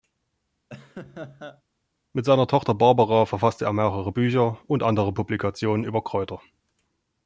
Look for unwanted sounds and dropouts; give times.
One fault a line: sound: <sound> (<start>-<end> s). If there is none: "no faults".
sound: laugh (0.7-1.6 s)